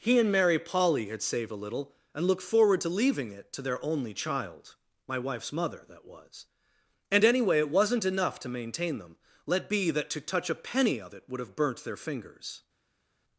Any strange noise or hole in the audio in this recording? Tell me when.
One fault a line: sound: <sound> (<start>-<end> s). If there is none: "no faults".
no faults